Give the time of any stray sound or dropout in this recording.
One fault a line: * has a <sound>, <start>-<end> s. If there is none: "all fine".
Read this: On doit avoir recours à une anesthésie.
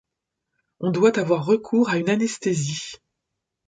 all fine